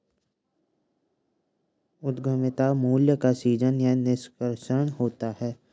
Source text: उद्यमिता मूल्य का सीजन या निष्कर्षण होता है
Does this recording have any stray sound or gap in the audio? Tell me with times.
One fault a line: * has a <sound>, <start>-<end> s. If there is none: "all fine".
all fine